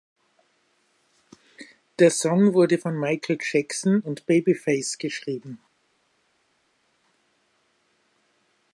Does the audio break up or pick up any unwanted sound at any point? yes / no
no